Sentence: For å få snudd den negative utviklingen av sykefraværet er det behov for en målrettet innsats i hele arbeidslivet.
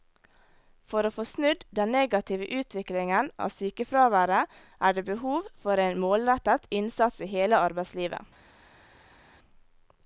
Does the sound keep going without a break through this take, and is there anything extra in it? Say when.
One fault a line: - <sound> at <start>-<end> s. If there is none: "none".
none